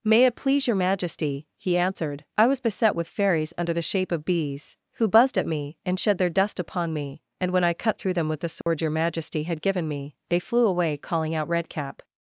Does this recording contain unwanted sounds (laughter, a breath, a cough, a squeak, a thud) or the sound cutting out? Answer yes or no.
yes